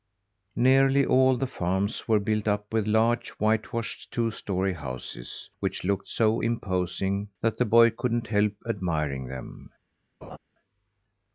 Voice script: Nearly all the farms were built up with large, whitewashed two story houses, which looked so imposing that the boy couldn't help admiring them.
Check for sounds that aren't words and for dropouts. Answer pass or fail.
fail